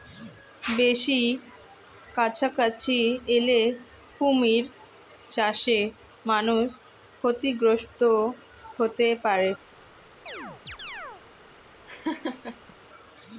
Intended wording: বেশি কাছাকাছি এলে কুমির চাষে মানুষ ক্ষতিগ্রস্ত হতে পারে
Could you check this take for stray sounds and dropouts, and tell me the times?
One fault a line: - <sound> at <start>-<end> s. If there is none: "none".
- chirp at 10.3-11.2 s
- laugh at 11.9-12.7 s